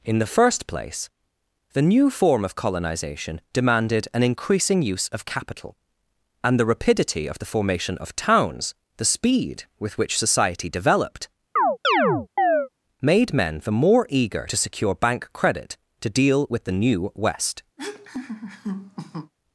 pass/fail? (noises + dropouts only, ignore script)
fail